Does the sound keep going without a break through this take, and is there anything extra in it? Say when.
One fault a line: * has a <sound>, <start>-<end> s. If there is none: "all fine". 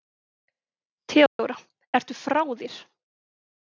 * has a dropout, 1.3-1.4 s